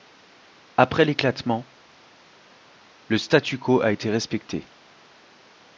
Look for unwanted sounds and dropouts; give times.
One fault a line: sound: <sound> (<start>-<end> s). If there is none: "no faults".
no faults